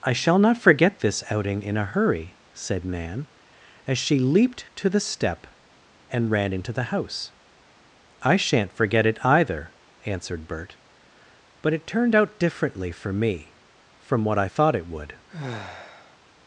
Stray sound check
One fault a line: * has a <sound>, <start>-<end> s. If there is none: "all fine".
* has a sigh, 15.3-16.2 s